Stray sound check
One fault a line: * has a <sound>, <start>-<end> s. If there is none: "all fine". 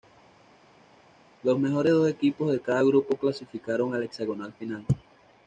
all fine